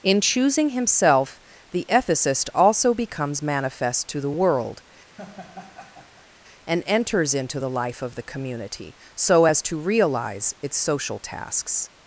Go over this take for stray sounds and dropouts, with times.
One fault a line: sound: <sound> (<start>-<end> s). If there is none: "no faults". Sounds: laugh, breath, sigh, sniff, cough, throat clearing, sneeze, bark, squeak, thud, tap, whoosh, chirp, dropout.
sound: laugh (5.2-6.3 s)